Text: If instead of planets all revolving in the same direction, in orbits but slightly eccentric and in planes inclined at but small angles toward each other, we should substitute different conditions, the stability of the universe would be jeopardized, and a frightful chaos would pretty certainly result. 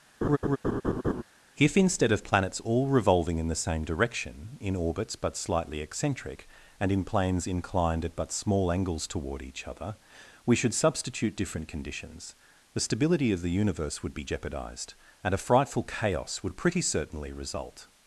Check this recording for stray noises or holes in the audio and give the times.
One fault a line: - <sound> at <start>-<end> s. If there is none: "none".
- laugh at 0.2-1.2 s